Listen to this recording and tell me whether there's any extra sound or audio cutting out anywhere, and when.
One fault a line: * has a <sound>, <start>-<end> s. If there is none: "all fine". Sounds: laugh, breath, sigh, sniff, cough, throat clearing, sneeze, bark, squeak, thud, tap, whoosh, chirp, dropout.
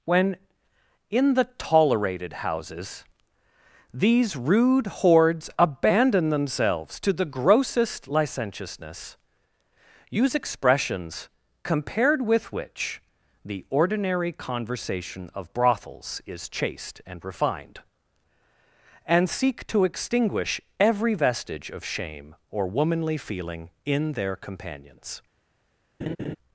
* has a laugh, 26.0-26.4 s